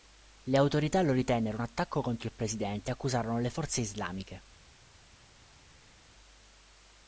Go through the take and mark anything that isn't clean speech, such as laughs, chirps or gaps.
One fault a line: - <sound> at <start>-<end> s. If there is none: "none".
none